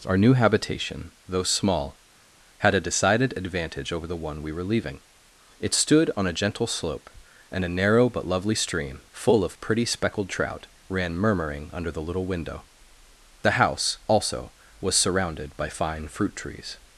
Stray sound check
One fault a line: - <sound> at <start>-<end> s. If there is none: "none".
none